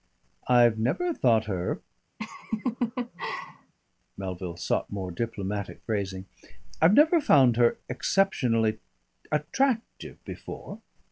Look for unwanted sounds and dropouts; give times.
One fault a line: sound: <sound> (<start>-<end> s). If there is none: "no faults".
sound: laugh (2.2-3.7 s)